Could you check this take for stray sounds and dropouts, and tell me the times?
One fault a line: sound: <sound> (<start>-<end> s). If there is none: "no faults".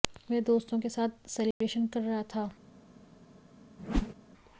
sound: dropout (1.5-1.6 s)
sound: whoosh (3.8-4.1 s)